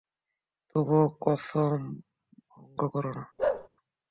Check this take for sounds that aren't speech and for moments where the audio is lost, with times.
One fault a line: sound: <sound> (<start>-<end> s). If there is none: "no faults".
sound: bark (3.4-3.7 s)